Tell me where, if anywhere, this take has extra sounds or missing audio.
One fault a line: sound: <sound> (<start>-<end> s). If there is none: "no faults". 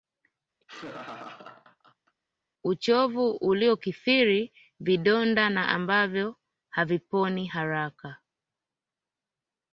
sound: laugh (0.6-2.2 s)